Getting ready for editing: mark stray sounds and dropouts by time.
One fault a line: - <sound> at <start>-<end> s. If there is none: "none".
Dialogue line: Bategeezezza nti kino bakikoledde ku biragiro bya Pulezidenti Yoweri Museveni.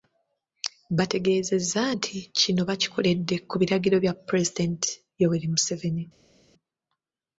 none